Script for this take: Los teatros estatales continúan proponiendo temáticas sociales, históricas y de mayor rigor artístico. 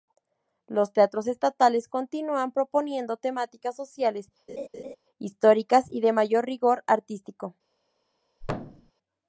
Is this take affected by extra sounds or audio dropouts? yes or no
yes